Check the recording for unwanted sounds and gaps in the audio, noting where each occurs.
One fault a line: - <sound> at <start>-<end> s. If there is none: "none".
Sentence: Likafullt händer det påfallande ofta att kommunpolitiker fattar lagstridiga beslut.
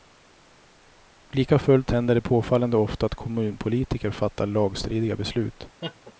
- laugh at 5.8-6.1 s